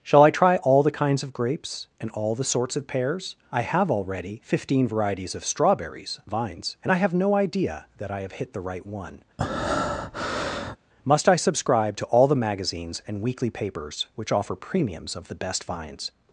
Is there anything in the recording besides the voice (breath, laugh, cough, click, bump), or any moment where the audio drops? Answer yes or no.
yes